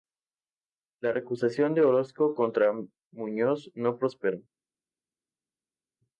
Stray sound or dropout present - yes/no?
no